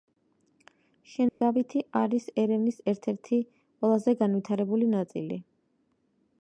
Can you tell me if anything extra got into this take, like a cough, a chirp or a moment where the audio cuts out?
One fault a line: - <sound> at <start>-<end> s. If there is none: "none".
- dropout at 1.3-1.4 s